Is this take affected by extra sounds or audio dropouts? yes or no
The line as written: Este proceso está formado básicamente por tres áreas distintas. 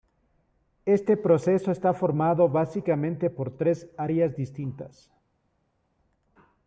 no